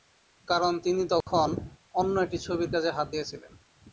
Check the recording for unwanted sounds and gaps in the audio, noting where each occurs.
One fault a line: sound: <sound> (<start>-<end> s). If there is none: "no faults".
sound: dropout (1.2-1.3 s)